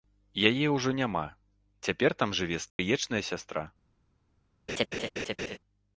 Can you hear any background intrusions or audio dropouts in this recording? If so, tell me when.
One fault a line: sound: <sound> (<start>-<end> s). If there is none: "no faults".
sound: dropout (2.7-2.8 s)
sound: laugh (4.7-5.6 s)